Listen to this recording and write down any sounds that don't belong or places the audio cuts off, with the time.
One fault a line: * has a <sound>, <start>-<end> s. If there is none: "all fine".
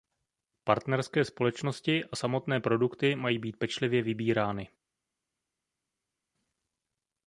all fine